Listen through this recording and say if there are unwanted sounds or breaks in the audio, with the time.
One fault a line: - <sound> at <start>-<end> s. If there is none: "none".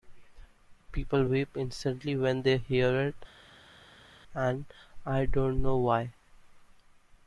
none